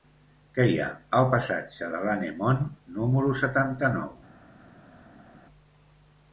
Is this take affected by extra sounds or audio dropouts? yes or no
no